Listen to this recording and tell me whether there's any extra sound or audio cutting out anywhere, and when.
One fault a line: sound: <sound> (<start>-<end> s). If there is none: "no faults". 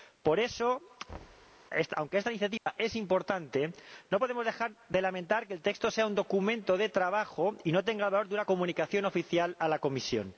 sound: thud (1.1-1.6 s)
sound: dropout (2.6-2.7 s)